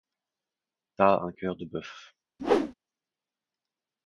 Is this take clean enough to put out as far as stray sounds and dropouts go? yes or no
no